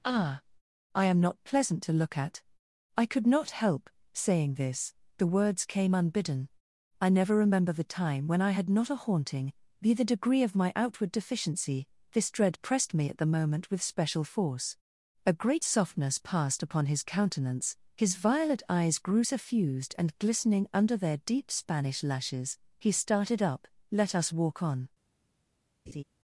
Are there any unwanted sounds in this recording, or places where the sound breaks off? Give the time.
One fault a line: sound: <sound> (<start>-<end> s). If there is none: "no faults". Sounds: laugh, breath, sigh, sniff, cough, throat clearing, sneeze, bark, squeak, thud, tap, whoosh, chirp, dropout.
sound: laugh (25.9-26.0 s)